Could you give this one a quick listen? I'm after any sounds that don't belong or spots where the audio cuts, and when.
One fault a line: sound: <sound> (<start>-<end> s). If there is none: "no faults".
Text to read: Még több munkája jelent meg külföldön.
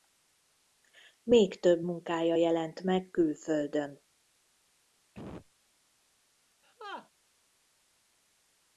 sound: cough (5.1-5.5 s)
sound: laugh (6.6-7.1 s)